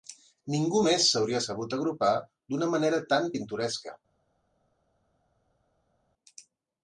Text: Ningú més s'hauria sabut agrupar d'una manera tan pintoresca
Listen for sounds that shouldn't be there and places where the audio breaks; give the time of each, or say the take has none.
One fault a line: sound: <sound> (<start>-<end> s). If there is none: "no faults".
no faults